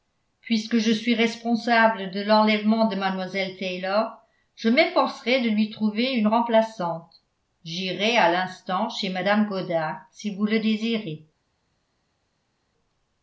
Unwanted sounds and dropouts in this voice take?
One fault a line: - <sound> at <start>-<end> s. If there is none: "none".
none